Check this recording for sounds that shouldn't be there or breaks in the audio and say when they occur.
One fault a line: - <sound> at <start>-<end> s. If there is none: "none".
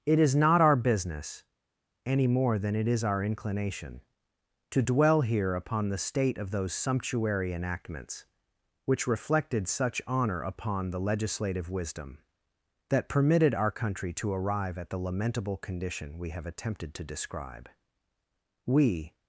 none